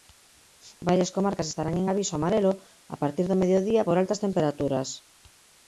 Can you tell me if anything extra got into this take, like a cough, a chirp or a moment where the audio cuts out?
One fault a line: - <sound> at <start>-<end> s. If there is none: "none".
none